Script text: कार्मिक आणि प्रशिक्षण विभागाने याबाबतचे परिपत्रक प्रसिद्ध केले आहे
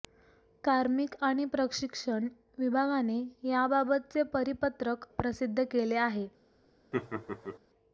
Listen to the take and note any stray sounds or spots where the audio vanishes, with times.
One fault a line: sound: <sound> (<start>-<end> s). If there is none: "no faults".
sound: laugh (6.9-7.6 s)